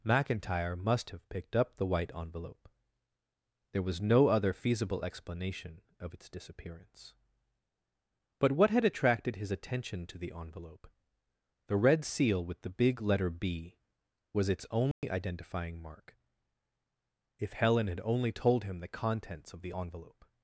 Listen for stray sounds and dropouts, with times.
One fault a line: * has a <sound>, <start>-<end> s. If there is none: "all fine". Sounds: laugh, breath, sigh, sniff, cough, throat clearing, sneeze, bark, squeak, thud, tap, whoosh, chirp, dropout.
* has a dropout, 14.9-15.0 s